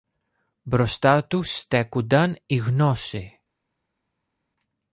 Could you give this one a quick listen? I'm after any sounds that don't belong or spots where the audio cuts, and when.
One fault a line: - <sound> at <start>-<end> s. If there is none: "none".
none